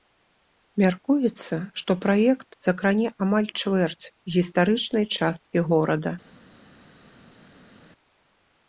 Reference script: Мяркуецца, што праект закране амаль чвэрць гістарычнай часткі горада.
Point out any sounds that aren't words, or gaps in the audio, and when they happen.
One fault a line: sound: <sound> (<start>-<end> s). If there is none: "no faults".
no faults